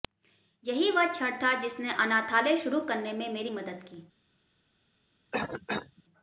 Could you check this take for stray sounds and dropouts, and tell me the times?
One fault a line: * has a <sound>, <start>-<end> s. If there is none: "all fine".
* has a cough, 5.3-6.0 s